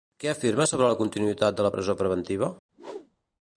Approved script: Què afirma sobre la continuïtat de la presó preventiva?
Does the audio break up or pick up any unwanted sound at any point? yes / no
yes